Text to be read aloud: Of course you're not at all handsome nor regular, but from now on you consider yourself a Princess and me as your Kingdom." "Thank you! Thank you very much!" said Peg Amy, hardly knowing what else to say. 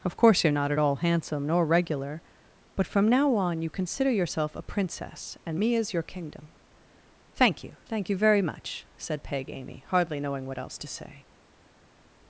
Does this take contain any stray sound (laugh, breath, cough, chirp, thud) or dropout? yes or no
no